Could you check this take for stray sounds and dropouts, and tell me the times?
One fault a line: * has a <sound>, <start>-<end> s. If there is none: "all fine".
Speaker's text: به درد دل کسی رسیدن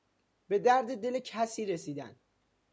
all fine